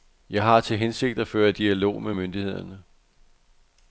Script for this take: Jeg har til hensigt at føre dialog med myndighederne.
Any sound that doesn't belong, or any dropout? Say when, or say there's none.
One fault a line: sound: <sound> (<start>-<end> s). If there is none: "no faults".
no faults